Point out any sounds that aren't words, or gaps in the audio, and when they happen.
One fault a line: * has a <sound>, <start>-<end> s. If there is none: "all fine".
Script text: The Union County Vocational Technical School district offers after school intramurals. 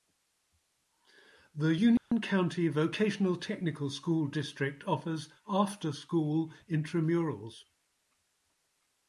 * has a dropout, 2.0-2.1 s